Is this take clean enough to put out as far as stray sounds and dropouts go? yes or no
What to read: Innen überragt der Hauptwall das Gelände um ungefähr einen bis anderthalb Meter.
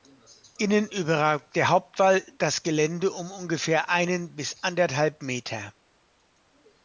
yes